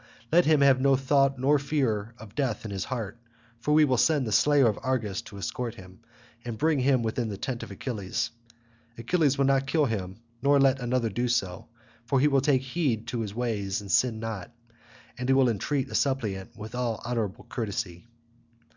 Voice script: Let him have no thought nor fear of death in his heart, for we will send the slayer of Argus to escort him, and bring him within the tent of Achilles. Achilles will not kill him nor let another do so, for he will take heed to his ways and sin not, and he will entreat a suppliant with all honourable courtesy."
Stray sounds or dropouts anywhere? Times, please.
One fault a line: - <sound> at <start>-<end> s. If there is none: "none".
none